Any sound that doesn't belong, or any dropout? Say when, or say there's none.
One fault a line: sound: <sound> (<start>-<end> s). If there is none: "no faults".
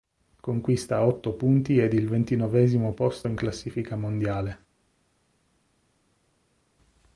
no faults